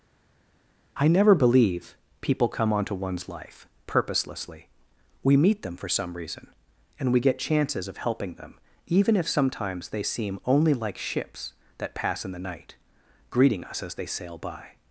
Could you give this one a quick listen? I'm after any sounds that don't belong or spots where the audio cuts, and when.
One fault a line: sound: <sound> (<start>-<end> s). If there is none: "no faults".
no faults